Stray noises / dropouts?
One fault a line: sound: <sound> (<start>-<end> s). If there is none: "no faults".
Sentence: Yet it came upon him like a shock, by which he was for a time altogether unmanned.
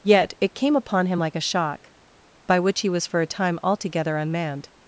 no faults